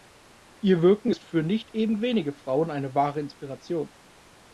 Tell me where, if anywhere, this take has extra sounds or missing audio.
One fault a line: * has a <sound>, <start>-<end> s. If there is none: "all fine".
all fine